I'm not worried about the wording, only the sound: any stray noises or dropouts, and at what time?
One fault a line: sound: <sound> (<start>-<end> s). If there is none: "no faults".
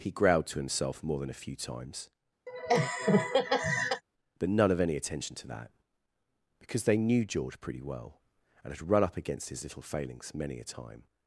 sound: laugh (2.5-4.0 s)